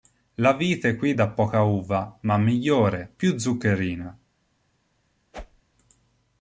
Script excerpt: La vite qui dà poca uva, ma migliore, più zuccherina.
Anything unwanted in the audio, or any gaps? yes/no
yes